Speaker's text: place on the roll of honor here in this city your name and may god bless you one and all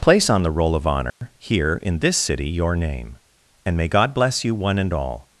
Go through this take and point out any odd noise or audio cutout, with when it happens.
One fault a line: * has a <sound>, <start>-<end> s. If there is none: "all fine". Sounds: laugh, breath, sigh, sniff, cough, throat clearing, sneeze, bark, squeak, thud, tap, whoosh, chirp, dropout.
* has a dropout, 1.1-1.2 s